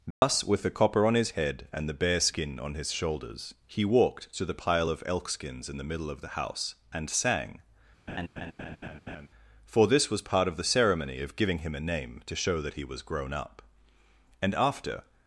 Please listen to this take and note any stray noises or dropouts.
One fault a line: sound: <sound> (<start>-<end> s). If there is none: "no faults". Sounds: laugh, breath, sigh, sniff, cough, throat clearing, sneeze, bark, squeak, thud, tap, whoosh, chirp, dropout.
sound: dropout (0.1-0.2 s)
sound: laugh (8.1-9.3 s)